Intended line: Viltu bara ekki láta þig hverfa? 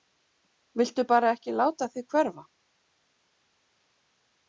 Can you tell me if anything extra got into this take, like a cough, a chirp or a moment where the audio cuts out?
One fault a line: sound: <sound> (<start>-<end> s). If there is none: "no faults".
no faults